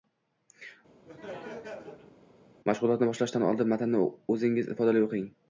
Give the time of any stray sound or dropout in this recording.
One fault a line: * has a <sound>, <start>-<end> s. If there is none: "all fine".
* has a laugh, 1.1-2.2 s